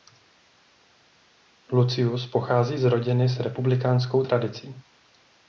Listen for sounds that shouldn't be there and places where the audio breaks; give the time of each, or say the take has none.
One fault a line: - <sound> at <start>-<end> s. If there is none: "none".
none